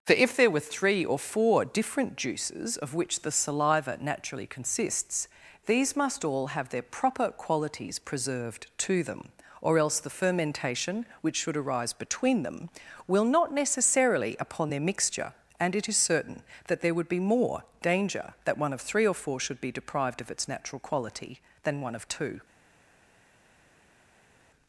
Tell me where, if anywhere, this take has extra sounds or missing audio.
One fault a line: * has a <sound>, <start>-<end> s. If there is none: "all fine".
all fine